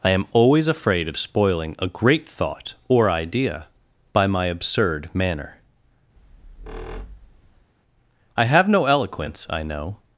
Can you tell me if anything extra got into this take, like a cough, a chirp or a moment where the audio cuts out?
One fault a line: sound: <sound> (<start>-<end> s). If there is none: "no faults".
sound: squeak (6.2-7.7 s)